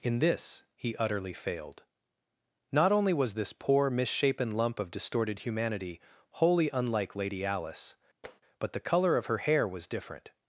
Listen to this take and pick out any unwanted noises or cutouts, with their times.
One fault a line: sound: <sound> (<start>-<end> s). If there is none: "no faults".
sound: tap (8.2-8.4 s)